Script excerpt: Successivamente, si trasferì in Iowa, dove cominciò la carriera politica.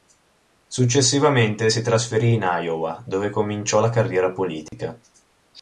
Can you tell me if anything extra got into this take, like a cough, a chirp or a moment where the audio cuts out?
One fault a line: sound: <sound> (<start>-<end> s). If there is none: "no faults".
sound: dropout (4.7-4.7 s)